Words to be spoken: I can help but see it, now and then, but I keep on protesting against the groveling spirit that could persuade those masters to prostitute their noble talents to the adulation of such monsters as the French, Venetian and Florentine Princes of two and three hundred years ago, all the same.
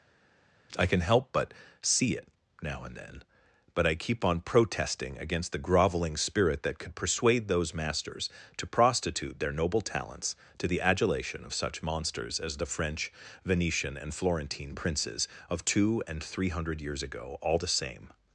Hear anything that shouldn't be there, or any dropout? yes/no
no